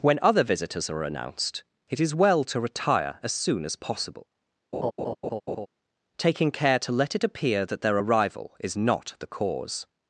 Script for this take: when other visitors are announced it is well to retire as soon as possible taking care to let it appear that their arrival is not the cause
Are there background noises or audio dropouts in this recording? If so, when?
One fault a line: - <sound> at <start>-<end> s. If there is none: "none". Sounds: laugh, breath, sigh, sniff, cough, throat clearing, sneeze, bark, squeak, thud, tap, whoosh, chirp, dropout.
- laugh at 4.7-5.7 s